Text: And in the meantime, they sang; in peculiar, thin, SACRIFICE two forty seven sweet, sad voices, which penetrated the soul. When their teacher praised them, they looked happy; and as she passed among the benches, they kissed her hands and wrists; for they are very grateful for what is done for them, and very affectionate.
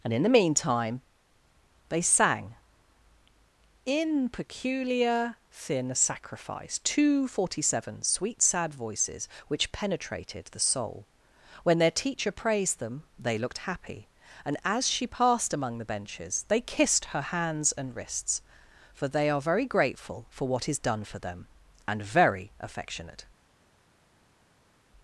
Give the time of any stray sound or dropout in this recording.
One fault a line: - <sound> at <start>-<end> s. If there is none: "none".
none